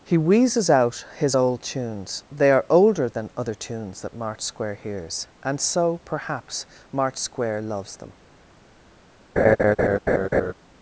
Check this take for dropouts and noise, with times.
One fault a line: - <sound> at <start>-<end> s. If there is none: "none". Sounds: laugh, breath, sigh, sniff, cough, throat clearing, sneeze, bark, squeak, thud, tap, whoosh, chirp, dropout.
- laugh at 9.4-10.5 s